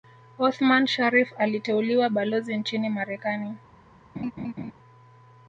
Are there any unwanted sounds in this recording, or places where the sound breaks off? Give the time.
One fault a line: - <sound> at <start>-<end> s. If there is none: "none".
- laugh at 4.1-4.7 s